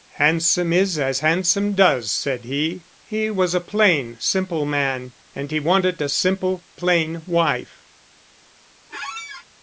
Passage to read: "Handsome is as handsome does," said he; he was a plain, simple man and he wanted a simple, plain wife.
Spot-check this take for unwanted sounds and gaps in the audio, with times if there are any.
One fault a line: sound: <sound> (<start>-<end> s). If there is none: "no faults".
sound: squeak (8.9-9.5 s)